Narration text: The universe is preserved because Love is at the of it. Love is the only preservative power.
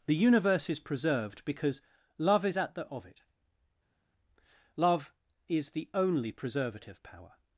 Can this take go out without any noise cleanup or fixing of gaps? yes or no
yes